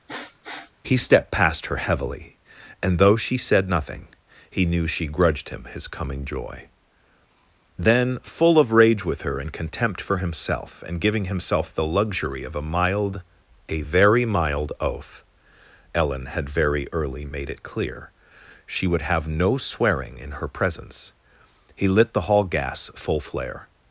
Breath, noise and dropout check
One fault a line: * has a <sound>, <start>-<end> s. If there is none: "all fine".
* has a sniff, 0.1-0.7 s